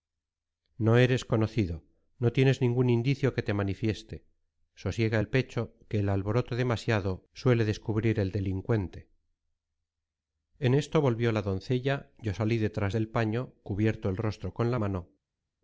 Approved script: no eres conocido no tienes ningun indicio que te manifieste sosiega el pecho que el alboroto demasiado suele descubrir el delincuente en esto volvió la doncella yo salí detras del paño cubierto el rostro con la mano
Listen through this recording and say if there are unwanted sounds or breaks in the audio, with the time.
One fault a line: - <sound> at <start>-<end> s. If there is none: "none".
none